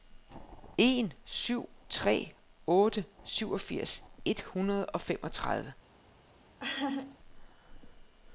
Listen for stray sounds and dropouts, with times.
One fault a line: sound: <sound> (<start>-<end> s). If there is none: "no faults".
sound: laugh (6.6-7.2 s)